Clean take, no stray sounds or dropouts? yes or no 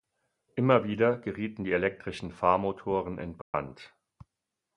no